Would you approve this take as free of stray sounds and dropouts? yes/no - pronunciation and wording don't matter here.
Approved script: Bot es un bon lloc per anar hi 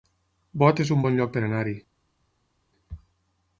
yes